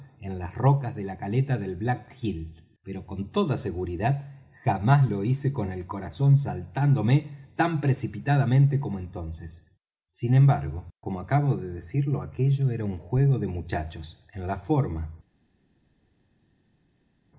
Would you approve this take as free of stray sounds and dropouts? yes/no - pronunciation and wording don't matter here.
yes